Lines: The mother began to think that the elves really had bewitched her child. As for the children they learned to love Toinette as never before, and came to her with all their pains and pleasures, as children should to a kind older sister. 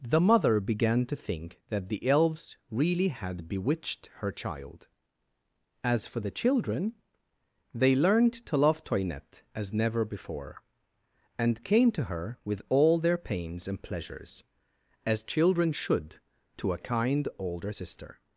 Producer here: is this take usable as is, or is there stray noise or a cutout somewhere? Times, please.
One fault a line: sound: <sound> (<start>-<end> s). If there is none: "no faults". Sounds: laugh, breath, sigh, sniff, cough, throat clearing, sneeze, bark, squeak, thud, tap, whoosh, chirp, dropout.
no faults